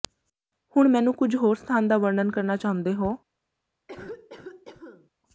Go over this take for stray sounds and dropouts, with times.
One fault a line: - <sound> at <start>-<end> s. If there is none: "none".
- cough at 3.9-5.1 s